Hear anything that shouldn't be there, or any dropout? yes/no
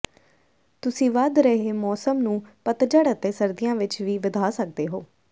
no